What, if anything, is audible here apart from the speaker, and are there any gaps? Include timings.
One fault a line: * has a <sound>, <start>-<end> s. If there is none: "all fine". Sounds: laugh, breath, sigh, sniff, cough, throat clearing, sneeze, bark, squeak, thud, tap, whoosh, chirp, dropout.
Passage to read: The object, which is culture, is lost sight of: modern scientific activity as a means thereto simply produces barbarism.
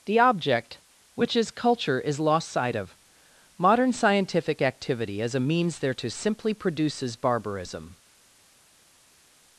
all fine